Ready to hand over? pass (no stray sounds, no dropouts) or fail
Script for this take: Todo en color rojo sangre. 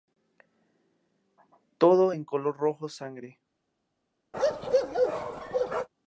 fail